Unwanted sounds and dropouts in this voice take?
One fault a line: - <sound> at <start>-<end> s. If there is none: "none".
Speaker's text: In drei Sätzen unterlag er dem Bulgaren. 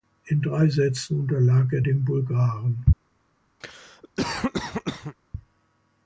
- cough at 3.6-5.2 s